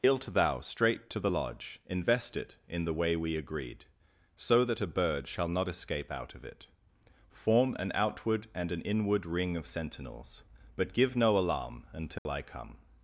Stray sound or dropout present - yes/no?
yes